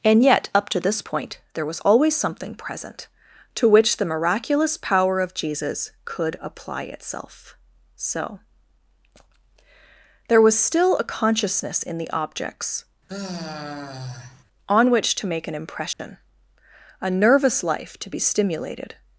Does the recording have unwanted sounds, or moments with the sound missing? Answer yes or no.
yes